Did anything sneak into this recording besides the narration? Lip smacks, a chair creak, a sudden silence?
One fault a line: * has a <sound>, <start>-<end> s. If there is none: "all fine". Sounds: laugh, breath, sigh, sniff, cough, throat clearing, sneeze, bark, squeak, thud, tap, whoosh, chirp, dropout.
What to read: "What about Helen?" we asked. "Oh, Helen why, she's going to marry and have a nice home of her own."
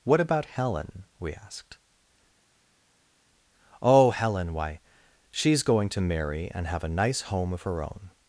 all fine